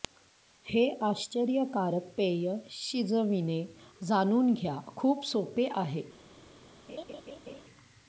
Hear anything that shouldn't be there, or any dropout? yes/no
yes